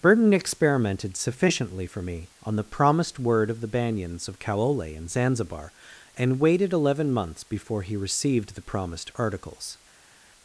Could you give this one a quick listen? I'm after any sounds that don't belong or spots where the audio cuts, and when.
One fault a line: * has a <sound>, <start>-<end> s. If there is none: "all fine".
all fine